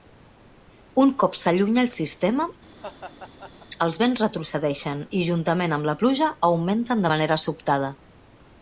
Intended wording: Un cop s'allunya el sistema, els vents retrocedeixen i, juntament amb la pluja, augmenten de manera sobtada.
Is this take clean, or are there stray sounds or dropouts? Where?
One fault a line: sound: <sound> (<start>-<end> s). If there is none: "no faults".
sound: laugh (2.8-3.7 s)